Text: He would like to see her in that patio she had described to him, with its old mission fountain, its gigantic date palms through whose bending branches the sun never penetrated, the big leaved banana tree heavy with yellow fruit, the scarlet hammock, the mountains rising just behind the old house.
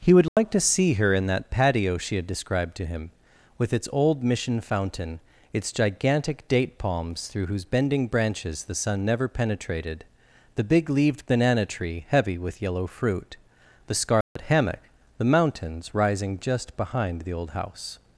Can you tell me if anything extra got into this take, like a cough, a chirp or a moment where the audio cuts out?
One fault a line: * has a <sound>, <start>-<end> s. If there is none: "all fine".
* has a dropout, 0.3-0.4 s
* has a dropout, 14.2-14.4 s